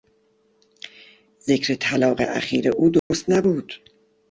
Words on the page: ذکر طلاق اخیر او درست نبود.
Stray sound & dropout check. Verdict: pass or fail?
fail